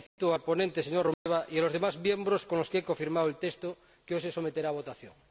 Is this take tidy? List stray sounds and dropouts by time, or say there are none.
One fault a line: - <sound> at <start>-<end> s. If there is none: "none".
- dropout at 0.1-0.2 s
- dropout at 1.1-1.3 s